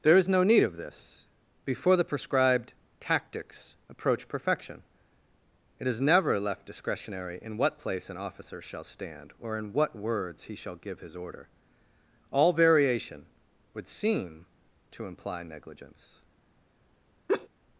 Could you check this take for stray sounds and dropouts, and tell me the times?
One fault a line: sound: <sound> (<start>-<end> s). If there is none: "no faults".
sound: laugh (17.3-17.5 s)